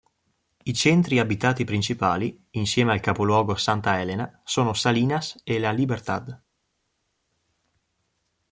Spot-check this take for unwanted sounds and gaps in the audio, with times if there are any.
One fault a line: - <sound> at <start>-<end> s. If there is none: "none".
none